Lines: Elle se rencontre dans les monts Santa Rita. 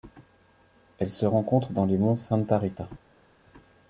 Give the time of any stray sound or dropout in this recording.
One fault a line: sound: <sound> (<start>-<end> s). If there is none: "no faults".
no faults